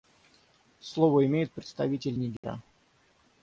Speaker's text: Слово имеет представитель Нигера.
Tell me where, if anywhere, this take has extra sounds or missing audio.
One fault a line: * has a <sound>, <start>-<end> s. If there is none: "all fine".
* has a dropout, 2.4-2.4 s